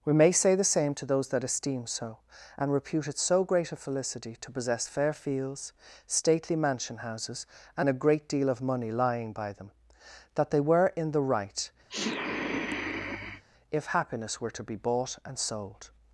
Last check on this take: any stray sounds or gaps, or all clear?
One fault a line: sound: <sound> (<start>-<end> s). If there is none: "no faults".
sound: sniff (11.9-13.4 s)